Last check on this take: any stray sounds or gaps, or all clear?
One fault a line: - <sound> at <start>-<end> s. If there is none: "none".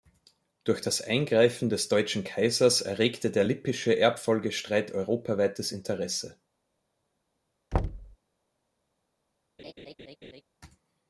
- thud at 7.7-8.2 s
- laugh at 9.6-10.4 s